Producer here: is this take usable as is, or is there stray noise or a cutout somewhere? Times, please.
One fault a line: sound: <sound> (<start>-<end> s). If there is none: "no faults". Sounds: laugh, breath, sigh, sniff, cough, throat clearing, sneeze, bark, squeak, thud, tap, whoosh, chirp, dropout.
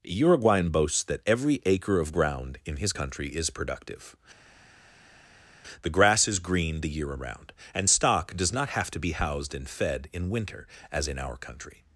no faults